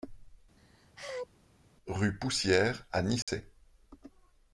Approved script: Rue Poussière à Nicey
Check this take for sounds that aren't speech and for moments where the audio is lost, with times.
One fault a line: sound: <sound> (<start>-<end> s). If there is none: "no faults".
sound: sneeze (0.6-1.3 s)
sound: dropout (3.2-3.3 s)